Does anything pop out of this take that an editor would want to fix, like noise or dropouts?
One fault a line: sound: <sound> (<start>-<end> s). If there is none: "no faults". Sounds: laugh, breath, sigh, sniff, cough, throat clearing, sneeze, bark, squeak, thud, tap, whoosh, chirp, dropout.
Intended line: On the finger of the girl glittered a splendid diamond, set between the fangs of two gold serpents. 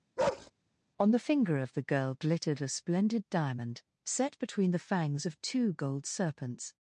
sound: bark (0.2-0.5 s)